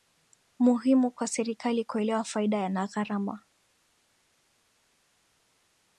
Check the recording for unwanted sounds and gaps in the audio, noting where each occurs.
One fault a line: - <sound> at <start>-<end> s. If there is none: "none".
none